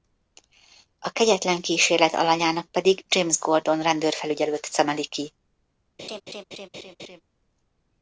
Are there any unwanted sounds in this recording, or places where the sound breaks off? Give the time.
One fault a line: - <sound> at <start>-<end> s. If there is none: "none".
- laugh at 6.0-7.2 s